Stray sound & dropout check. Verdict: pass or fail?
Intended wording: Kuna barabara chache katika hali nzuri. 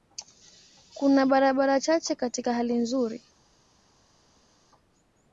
pass